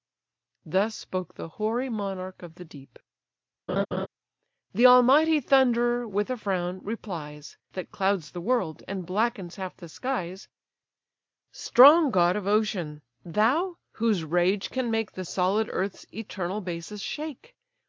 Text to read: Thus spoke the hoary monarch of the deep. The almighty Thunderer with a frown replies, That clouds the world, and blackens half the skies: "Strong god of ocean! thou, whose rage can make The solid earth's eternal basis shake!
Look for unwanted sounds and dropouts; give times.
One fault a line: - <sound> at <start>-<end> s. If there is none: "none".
- laugh at 3.7-4.1 s